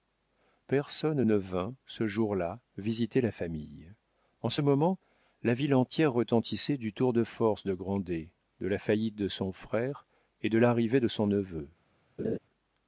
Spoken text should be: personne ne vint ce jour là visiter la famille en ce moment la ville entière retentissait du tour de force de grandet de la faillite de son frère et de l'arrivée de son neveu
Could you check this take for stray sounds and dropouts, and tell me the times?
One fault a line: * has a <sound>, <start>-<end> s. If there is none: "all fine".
* has a laugh, 12.2-12.4 s